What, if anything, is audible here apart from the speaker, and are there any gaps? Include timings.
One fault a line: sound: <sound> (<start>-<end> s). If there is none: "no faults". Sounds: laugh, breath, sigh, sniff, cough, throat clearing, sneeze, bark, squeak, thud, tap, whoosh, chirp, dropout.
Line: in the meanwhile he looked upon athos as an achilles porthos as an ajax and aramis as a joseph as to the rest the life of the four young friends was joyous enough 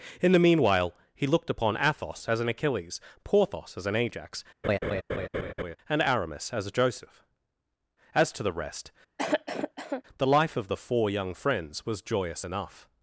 sound: laugh (4.6-5.8 s)
sound: cough (9.2-10.0 s)